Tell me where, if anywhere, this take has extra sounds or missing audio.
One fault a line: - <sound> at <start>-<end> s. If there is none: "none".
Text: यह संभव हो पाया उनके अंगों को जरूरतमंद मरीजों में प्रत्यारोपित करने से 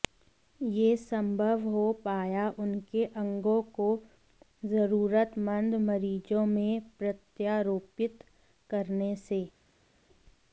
none